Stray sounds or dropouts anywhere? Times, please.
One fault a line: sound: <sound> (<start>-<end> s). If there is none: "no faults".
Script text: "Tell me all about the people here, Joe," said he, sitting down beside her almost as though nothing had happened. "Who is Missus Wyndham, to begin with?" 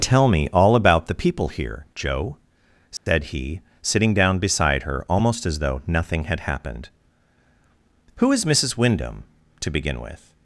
sound: dropout (3.0-3.1 s)